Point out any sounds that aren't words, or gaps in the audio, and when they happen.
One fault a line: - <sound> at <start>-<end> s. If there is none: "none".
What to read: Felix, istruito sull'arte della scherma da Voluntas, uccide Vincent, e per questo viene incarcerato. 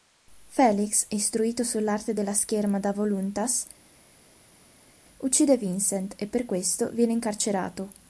none